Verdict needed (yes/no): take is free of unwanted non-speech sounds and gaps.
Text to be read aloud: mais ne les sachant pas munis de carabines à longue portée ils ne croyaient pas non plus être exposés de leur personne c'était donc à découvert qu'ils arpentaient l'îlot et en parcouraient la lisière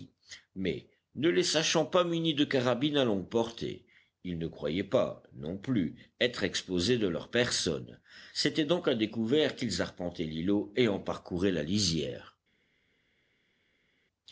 yes